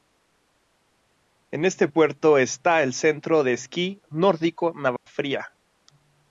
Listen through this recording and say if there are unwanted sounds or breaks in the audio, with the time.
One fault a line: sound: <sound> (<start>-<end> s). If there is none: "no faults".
sound: dropout (5.0-5.1 s)